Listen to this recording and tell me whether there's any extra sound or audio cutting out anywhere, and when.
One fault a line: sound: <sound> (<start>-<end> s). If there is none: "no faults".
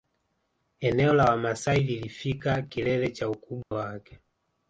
sound: dropout (3.6-3.7 s)